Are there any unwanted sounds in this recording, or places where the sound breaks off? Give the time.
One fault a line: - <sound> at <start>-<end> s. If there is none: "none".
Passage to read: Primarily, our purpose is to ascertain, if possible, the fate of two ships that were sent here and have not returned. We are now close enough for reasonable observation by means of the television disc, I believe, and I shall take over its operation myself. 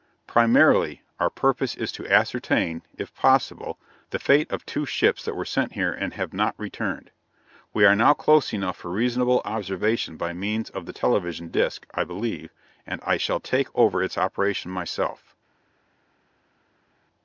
none